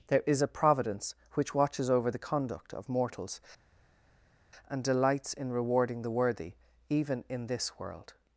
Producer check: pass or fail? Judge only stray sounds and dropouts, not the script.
pass